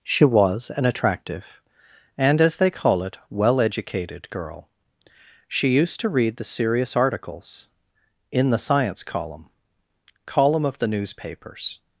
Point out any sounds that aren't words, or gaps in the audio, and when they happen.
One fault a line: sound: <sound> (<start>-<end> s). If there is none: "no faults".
no faults